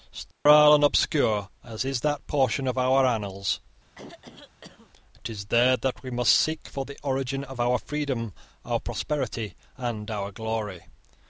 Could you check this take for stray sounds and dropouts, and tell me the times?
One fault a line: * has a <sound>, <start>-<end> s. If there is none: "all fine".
* has a dropout, 0.3-0.5 s
* has a throat clearing, 3.9-4.9 s